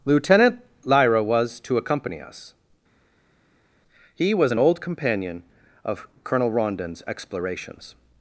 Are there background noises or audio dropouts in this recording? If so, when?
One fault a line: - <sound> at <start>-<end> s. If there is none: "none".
none